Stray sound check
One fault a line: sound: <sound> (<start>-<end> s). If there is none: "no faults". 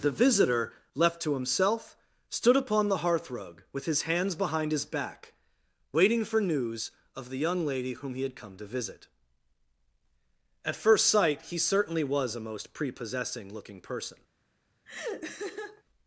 sound: laugh (14.8-15.8 s)